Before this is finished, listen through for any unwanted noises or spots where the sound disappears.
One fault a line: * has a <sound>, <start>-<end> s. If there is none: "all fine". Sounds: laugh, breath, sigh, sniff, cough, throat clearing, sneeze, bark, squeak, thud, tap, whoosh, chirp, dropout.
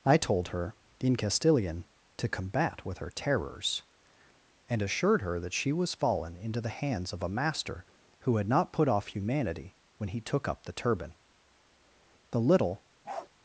* has a bark, 13.0-13.3 s